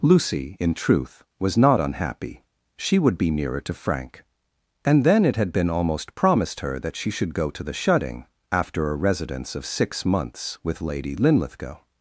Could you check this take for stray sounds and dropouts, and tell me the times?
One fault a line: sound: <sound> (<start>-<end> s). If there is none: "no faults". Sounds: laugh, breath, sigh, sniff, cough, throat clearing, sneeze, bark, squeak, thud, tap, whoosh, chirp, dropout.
no faults